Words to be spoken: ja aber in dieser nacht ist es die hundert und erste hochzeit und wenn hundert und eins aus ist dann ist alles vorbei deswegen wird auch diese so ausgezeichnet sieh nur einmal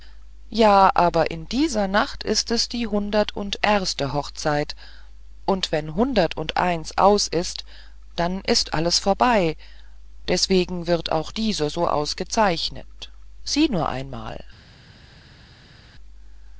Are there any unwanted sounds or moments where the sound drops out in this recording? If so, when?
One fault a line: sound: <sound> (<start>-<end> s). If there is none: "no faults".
no faults